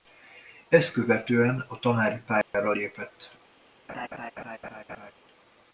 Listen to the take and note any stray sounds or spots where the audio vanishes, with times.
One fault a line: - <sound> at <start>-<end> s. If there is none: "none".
- dropout at 2.4-2.5 s
- laugh at 3.9-5.1 s